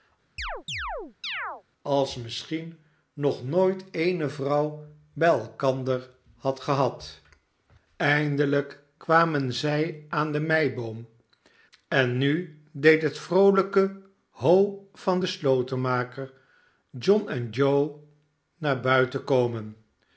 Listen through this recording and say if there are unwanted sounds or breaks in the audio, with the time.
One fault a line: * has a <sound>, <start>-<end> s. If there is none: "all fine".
* has a chirp, 0.4-1.6 s